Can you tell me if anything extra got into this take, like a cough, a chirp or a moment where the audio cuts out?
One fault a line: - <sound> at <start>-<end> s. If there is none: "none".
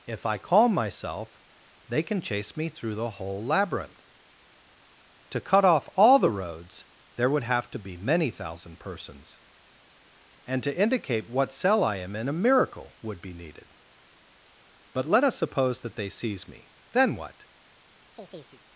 - chirp at 18.2-18.6 s